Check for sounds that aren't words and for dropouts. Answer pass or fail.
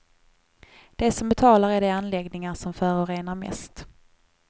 pass